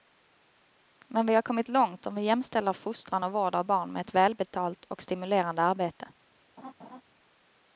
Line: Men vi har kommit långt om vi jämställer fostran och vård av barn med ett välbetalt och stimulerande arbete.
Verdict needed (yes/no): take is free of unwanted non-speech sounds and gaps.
no